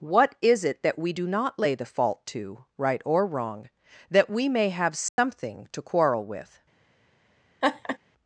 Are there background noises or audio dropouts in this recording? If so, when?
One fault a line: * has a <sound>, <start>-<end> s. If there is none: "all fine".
* has a dropout, 5.1-5.2 s
* has a laugh, 7.6-8.0 s